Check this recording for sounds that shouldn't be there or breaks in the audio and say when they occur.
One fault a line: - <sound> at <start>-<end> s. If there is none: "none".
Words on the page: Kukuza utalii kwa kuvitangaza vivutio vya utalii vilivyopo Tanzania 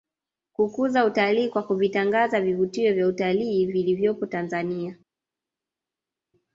none